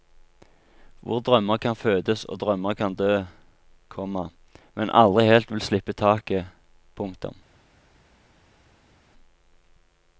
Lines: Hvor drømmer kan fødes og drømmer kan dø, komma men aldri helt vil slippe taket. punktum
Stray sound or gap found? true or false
false